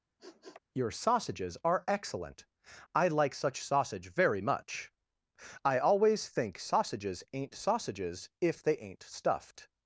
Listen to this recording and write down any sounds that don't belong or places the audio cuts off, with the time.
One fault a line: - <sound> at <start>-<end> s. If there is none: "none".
- sniff at 0.2-0.6 s